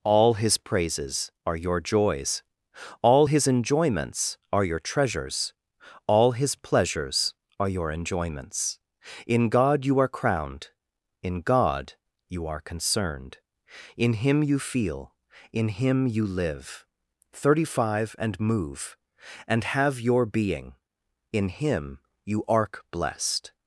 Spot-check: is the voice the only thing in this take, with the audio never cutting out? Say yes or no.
yes